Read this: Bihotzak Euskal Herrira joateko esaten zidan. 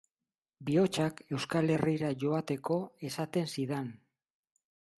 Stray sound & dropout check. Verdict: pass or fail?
pass